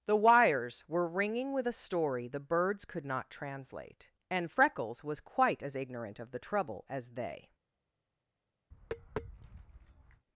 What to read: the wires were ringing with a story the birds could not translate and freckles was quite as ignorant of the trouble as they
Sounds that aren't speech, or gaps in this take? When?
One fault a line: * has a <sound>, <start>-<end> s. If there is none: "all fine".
* has a tap, 8.7-10.3 s